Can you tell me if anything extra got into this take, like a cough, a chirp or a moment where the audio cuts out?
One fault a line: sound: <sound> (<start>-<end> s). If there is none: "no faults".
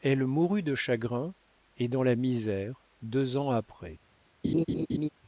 sound: laugh (4.4-5.1 s)